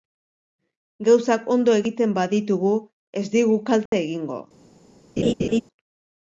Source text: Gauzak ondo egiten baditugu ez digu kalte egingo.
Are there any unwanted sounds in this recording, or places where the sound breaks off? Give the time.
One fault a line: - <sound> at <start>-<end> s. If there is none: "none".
- dropout at 3.9-3.9 s
- laugh at 5.2-5.6 s